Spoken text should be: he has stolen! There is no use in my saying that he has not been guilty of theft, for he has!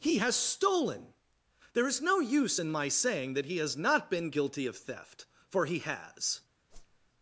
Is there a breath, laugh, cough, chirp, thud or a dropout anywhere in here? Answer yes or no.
yes